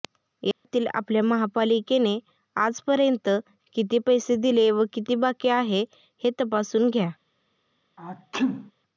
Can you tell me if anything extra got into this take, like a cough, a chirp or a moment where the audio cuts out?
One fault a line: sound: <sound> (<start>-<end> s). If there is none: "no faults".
sound: dropout (0.5-0.6 s)
sound: sneeze (8.0-8.7 s)